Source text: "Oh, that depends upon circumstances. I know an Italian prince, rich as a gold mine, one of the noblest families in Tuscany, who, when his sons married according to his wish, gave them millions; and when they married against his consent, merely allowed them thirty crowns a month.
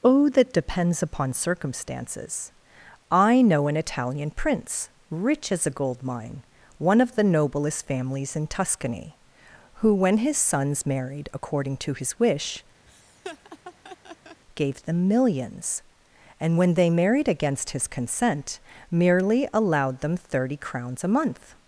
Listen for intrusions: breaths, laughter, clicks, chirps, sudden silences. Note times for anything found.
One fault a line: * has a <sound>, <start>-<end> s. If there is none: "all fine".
* has a laugh, 12.9-14.4 s